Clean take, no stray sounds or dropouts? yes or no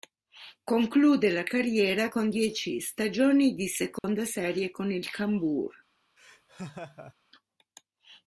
no